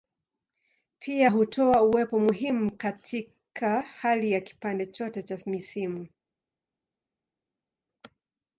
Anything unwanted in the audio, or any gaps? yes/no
no